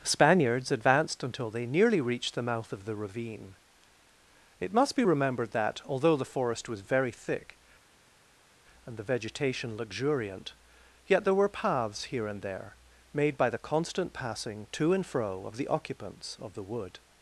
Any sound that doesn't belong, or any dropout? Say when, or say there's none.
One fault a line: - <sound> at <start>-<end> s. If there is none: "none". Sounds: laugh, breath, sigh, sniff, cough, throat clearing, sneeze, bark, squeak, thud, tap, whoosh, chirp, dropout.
none